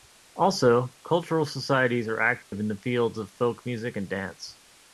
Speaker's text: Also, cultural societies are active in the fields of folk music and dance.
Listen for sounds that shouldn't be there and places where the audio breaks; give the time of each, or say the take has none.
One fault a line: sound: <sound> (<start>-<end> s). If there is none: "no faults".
sound: dropout (2.4-2.5 s)